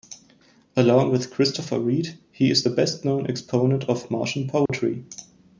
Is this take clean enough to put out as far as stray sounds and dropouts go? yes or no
no